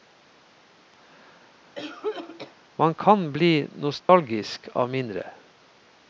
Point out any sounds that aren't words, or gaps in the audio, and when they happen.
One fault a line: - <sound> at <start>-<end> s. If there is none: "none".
- cough at 1.8-2.6 s
- dropout at 4.0-4.1 s